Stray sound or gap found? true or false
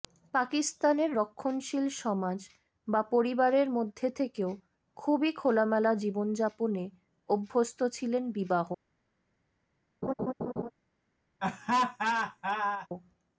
true